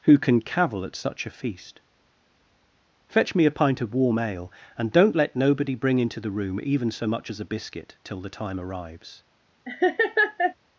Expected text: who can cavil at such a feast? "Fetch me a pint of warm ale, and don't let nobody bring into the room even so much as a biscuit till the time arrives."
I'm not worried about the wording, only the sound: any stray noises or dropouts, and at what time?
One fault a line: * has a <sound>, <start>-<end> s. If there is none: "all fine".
* has a laugh, 9.6-10.5 s